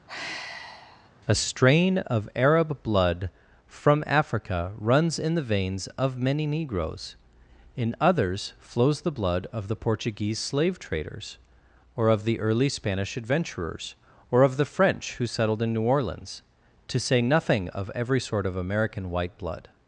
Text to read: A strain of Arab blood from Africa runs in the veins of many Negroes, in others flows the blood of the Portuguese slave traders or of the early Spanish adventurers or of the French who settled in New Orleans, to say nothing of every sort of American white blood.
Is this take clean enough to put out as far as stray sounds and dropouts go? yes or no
no